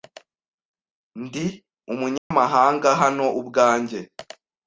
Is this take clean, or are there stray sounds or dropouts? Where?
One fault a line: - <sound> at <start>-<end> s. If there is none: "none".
- dropout at 2.2-2.3 s